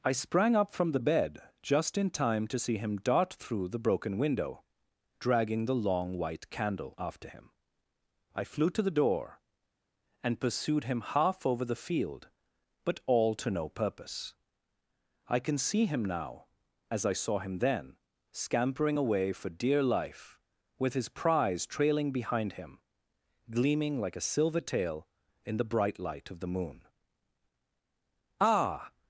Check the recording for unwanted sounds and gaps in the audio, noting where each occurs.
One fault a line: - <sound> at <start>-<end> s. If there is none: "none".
none